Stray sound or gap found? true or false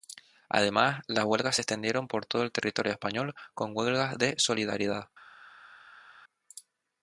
false